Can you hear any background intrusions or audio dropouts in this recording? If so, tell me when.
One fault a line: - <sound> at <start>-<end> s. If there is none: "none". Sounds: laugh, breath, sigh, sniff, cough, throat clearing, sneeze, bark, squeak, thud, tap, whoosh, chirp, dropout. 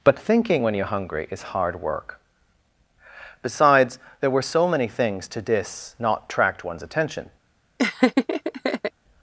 - laugh at 7.8-8.9 s